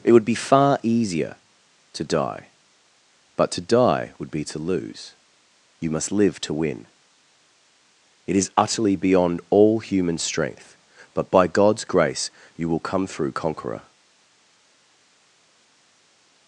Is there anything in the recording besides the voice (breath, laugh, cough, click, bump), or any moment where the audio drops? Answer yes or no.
no